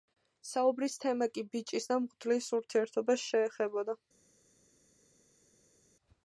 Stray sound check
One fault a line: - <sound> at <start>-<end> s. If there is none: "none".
none